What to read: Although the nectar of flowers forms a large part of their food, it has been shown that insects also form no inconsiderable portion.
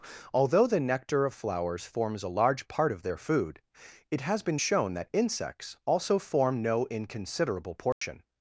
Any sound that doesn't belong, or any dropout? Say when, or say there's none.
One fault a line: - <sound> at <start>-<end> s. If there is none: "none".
- dropout at 7.9-8.0 s